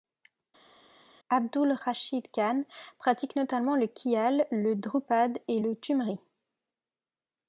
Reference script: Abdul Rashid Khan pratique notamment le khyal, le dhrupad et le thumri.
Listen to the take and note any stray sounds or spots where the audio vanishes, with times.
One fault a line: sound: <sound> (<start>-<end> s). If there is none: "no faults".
no faults